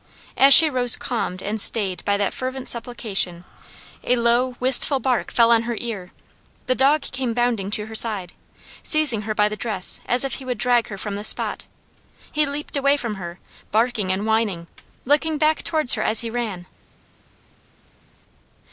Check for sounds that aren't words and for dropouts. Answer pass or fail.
pass